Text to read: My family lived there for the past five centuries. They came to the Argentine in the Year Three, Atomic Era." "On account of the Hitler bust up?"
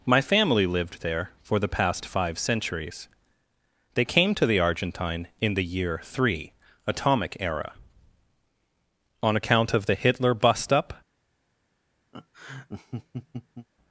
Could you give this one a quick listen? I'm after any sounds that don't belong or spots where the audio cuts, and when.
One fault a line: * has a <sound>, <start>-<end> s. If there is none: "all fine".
* has a laugh, 12.1-13.7 s